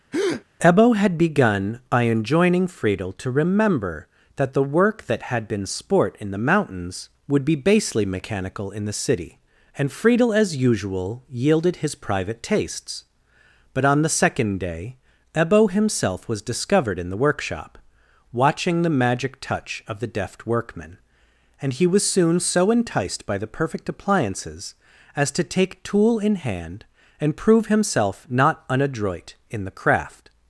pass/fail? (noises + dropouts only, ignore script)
fail